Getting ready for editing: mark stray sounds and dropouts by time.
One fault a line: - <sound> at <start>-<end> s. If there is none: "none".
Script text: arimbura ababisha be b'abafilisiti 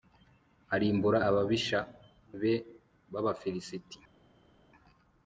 none